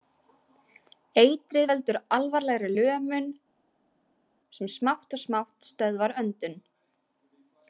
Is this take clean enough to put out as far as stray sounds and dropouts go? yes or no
yes